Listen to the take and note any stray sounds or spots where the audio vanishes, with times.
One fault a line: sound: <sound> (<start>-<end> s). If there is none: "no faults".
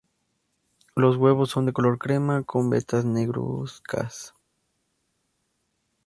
no faults